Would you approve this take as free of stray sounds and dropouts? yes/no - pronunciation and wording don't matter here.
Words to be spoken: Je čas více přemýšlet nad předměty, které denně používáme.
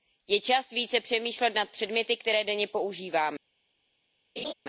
no